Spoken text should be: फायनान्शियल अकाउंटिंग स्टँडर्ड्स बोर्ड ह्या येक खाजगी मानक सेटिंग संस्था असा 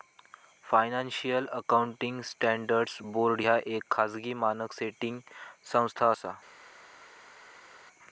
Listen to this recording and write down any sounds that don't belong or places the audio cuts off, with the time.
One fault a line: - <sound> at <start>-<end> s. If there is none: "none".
none